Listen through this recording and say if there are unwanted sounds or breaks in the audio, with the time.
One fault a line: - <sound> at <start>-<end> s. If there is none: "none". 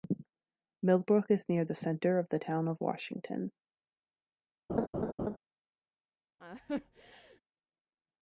- laugh at 4.7-5.4 s
- laugh at 6.4-7.4 s